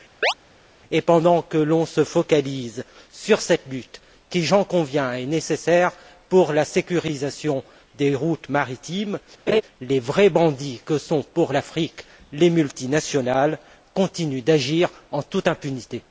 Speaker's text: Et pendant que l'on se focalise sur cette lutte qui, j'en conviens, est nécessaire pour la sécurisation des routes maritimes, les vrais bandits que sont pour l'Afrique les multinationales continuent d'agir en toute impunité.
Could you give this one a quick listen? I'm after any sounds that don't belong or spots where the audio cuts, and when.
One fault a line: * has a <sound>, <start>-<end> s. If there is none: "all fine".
* has a chirp, 0.2-0.3 s
* has a laugh, 9.5-9.6 s